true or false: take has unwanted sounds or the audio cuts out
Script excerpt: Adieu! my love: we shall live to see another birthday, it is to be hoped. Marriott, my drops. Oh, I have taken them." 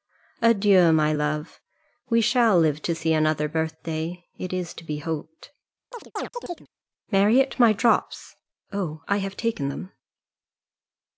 true